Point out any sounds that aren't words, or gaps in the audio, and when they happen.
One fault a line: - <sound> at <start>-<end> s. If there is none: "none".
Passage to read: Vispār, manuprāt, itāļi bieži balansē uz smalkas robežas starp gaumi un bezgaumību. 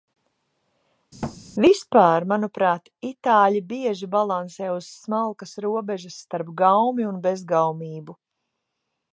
- thud at 1.2-1.4 s